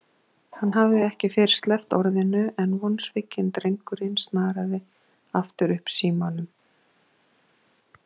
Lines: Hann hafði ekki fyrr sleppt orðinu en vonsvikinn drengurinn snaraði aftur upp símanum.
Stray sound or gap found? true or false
false